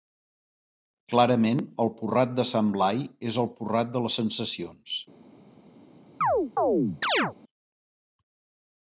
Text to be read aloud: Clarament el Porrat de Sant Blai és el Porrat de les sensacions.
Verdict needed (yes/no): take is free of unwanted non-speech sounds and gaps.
no